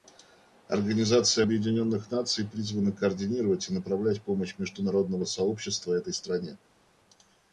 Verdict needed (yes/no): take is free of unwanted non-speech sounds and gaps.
yes